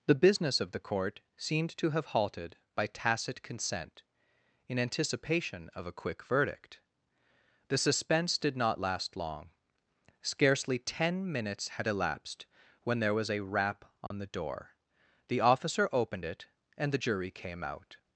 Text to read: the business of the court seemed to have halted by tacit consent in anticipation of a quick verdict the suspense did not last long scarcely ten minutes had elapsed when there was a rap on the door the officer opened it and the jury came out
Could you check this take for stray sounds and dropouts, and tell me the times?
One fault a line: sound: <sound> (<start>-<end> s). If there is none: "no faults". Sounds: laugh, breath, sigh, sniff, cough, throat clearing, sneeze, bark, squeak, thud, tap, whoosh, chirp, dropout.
sound: dropout (14.1-14.1 s)